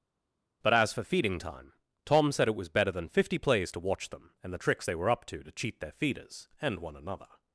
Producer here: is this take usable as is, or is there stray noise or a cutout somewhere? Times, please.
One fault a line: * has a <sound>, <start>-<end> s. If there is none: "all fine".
all fine